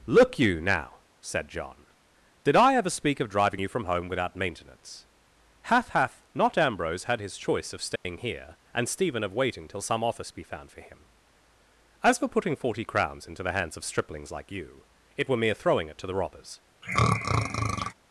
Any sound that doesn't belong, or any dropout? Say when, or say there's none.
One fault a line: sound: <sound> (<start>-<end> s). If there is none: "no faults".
sound: dropout (8.0-8.0 s)
sound: throat clearing (16.8-17.9 s)